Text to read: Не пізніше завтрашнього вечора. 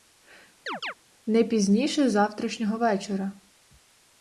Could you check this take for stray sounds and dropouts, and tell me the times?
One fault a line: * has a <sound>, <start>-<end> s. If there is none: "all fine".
* has a chirp, 0.7-0.9 s